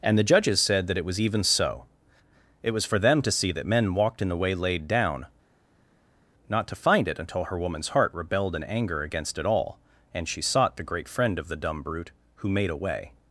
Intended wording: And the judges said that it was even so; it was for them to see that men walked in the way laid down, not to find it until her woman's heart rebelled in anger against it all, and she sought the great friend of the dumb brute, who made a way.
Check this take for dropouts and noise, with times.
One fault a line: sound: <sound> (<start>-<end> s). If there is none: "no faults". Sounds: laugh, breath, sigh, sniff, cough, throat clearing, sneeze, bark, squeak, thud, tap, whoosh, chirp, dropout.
no faults